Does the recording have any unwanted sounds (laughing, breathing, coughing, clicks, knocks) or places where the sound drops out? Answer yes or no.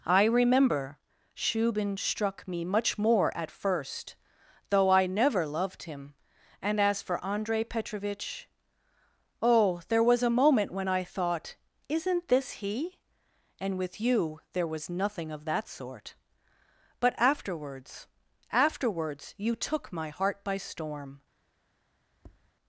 yes